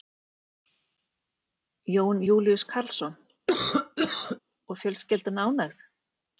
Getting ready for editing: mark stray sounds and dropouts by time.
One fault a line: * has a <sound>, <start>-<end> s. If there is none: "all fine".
* has a cough, 3.5-4.4 s